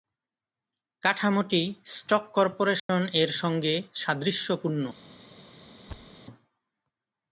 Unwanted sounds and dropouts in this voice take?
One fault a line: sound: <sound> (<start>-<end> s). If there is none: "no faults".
sound: dropout (2.8-2.9 s)
sound: thud (5.9-6.2 s)